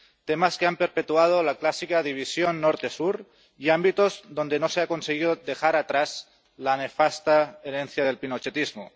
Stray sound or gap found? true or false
false